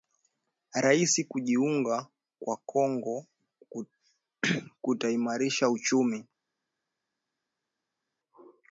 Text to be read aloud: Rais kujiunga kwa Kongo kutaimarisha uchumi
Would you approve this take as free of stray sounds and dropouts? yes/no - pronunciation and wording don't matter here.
yes